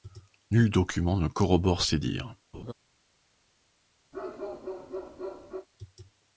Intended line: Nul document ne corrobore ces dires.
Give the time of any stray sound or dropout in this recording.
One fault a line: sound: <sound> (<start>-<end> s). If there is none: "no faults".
sound: laugh (2.5-2.7 s)
sound: bark (4.1-5.7 s)